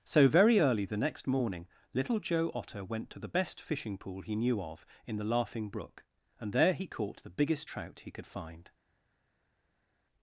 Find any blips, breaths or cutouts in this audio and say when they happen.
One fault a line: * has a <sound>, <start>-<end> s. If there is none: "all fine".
all fine